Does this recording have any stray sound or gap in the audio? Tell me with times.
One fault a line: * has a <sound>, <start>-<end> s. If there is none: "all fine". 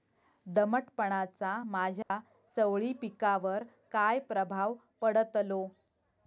* has a dropout, 2.0-2.1 s